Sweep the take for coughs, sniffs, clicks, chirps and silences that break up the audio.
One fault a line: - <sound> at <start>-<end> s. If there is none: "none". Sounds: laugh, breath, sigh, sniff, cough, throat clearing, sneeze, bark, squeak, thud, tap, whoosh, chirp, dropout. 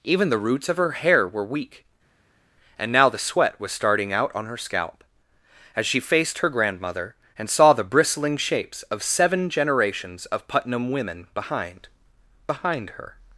none